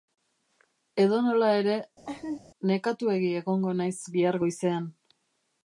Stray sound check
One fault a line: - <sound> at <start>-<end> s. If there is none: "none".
- laugh at 2.1-2.4 s